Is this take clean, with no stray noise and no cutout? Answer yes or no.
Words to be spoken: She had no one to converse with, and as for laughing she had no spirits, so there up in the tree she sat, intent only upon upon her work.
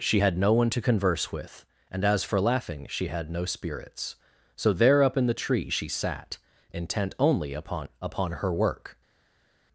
yes